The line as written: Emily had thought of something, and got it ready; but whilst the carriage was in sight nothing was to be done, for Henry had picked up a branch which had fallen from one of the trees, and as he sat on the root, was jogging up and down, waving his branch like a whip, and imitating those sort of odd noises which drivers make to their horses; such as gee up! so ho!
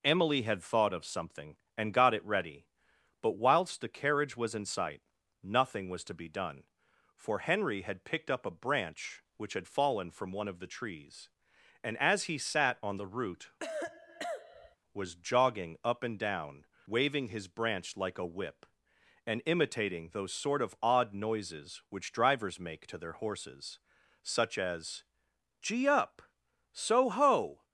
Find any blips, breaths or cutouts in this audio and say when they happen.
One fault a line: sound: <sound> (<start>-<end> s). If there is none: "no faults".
sound: cough (13.6-14.8 s)